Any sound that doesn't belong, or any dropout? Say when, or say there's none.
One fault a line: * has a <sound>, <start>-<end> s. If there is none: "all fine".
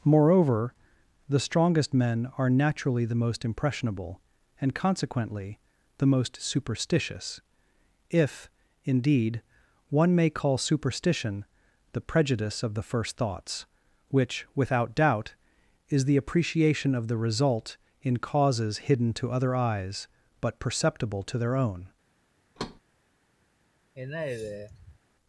* has a thud, 22.6-22.8 s
* has a sigh, 23.9-25.0 s